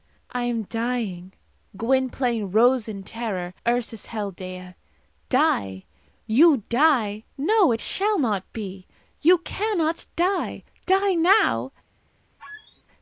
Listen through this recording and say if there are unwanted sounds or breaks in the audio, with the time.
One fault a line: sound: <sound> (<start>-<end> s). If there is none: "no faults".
sound: squeak (12.4-12.8 s)